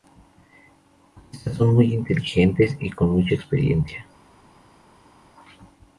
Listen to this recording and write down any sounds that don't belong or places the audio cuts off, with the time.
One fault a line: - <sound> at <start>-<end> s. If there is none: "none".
none